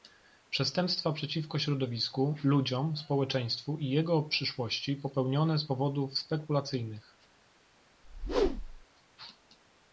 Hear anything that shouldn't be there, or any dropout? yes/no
yes